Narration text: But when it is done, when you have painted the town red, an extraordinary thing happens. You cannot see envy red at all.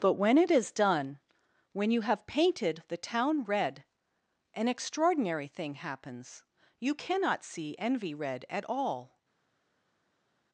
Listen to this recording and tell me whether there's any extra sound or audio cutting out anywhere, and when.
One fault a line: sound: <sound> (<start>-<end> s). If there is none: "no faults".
no faults